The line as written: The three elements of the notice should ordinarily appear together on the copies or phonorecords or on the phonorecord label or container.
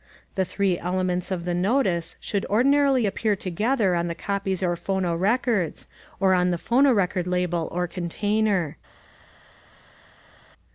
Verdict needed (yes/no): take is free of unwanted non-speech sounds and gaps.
yes